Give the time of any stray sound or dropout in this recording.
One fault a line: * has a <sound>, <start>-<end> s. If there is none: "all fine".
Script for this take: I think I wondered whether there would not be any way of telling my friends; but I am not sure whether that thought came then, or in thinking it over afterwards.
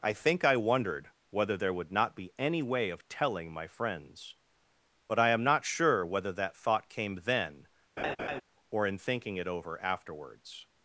* has a laugh, 8.0-8.4 s